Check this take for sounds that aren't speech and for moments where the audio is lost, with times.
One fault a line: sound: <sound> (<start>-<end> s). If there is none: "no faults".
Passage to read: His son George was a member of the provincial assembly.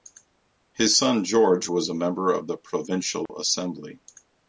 sound: dropout (3.3-3.3 s)